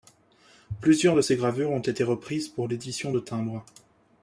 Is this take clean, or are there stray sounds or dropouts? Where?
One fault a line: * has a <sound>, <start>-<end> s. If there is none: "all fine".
all fine